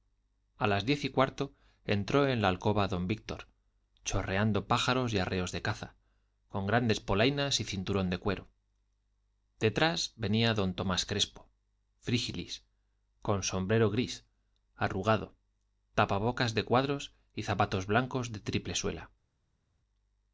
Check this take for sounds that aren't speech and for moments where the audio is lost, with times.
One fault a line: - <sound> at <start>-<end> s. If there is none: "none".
none